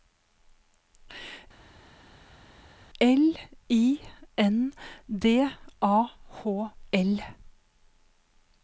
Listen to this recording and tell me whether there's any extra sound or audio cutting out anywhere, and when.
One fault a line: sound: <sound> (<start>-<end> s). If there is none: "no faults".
no faults